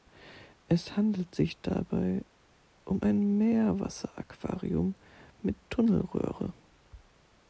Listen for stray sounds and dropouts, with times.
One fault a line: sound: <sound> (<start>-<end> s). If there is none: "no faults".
no faults